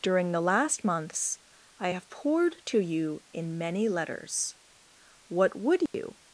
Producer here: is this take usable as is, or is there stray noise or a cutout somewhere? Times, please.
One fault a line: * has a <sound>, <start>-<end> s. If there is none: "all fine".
* has a dropout, 5.9-5.9 s